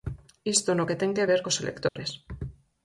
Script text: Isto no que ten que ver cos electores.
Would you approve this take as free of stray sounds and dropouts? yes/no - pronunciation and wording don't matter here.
no